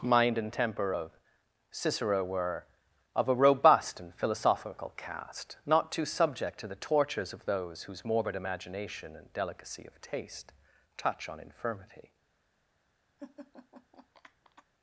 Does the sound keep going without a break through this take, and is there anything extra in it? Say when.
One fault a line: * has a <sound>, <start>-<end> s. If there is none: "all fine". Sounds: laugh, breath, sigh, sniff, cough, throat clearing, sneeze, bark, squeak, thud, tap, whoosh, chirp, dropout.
* has a laugh, 13.2-14.6 s